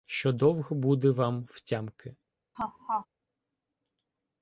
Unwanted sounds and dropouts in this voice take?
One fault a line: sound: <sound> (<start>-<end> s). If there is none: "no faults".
sound: laugh (2.5-3.1 s)